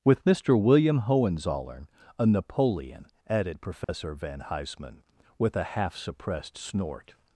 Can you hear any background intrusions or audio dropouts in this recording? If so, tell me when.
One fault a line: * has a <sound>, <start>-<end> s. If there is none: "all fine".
* has a dropout, 3.8-3.9 s